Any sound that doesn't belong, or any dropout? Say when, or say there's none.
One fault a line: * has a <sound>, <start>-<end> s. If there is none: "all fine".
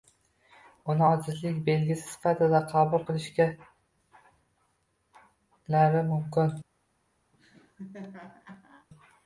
* has a laugh, 7.3-8.9 s